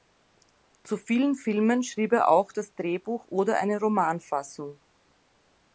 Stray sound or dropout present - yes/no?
no